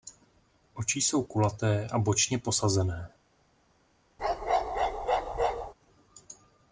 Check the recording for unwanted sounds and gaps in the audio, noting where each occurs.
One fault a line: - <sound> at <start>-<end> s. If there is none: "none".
- bark at 4.2-5.7 s